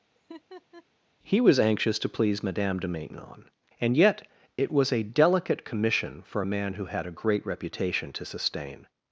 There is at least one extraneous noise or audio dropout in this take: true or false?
true